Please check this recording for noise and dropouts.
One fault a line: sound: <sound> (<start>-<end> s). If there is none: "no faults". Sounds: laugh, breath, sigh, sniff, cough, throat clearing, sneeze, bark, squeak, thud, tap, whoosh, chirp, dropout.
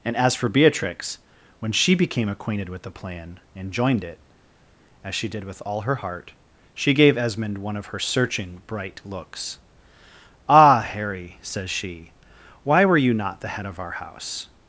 no faults